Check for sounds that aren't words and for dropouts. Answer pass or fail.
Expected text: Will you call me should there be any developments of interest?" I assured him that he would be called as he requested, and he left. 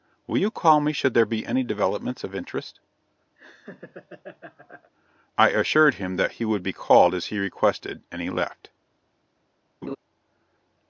fail